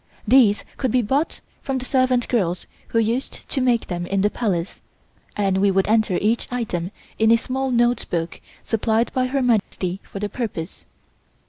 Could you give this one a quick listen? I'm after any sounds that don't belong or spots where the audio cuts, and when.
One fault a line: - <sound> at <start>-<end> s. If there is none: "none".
- dropout at 9.6-9.7 s